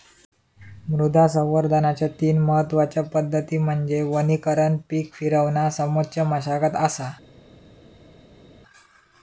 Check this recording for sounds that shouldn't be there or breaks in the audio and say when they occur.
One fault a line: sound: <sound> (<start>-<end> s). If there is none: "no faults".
no faults